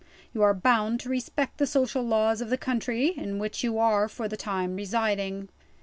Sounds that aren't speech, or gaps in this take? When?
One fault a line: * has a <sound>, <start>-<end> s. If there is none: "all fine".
all fine